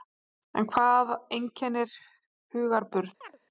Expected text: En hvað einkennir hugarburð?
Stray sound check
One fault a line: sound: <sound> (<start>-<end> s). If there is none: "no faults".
sound: chirp (3.2-3.4 s)